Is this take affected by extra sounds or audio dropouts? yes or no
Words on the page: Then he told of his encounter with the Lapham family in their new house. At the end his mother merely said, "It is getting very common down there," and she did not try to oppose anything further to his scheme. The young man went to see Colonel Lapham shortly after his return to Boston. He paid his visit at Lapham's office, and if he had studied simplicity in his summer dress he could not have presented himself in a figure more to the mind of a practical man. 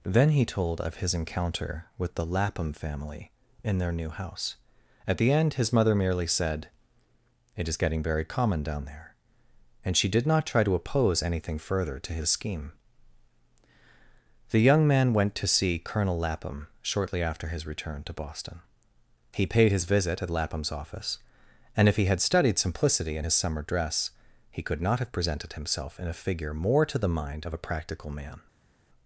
no